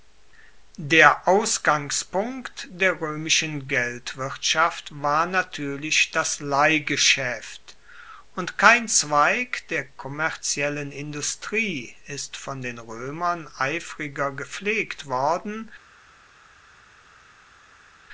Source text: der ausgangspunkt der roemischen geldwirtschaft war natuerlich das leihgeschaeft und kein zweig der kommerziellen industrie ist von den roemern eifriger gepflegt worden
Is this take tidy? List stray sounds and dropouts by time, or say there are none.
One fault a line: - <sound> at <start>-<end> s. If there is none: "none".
none